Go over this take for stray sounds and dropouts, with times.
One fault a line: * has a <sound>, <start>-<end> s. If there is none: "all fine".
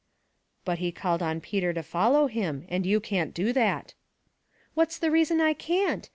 all fine